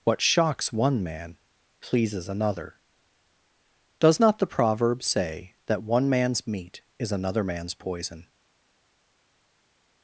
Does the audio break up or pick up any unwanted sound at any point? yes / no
no